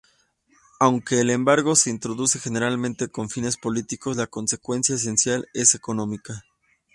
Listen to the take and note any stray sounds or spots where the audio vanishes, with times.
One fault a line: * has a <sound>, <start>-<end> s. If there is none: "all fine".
all fine